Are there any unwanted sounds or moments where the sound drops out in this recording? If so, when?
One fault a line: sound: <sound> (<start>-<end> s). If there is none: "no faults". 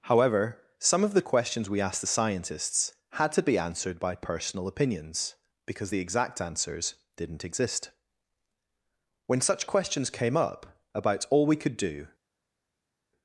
no faults